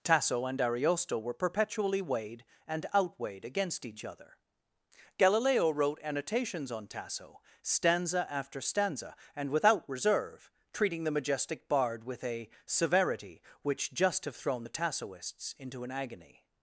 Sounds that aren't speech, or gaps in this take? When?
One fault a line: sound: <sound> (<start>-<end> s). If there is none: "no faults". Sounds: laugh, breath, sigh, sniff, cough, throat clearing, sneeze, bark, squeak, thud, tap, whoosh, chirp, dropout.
no faults